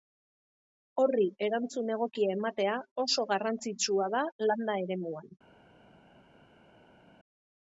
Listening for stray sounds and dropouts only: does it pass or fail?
pass